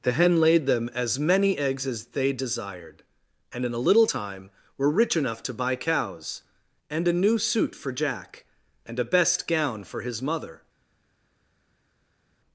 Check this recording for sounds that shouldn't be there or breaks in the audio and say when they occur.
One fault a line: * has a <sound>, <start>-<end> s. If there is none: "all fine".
all fine